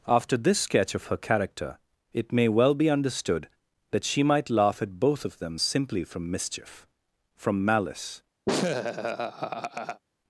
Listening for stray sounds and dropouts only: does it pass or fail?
fail